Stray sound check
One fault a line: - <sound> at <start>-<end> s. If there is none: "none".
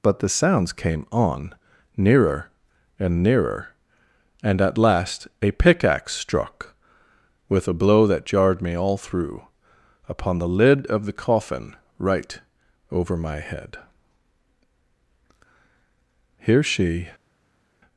none